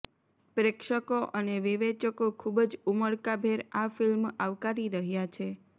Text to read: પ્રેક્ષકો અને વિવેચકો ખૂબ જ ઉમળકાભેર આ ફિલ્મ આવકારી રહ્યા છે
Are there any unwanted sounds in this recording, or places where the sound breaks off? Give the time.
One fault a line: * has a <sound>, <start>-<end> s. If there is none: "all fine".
all fine